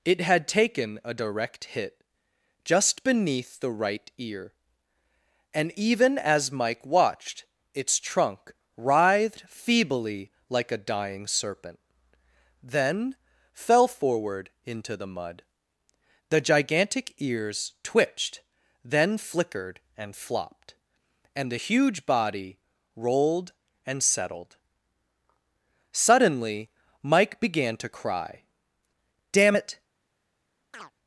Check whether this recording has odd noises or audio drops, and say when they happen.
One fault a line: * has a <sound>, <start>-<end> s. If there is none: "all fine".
* has a chirp, 30.7-30.9 s